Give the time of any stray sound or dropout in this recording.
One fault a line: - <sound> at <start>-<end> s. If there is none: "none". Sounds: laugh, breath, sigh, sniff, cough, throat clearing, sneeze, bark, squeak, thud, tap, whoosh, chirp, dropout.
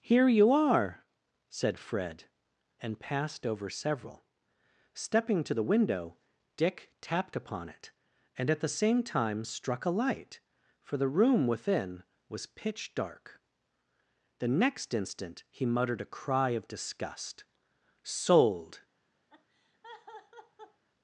- laugh at 19.3-20.8 s